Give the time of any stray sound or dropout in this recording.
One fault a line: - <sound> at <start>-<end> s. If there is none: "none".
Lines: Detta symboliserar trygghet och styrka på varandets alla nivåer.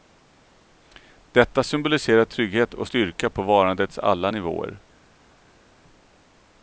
none